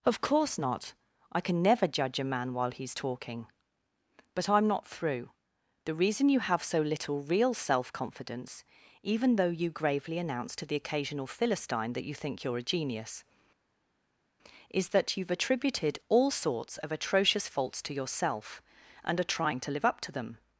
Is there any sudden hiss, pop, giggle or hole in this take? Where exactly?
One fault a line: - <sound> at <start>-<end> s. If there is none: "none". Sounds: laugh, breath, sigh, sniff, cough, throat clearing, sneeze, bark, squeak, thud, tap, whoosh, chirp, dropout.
none